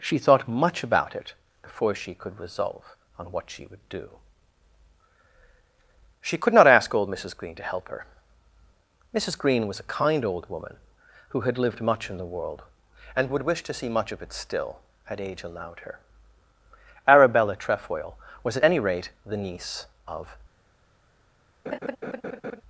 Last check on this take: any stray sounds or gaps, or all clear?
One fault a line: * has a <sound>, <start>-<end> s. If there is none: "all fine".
* has a laugh, 21.7-22.6 s